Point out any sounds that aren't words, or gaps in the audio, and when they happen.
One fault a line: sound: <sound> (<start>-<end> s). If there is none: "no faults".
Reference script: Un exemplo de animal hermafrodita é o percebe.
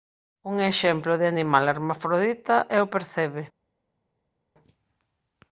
no faults